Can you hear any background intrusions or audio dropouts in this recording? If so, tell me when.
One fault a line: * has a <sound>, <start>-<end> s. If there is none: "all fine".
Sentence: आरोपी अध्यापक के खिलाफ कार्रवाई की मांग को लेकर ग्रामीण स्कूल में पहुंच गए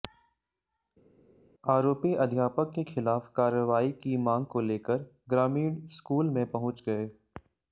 all fine